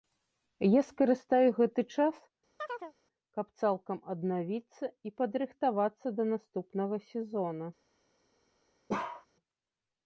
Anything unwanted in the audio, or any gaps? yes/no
yes